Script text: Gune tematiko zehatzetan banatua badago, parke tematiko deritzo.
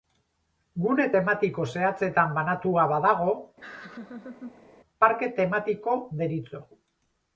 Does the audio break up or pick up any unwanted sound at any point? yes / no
yes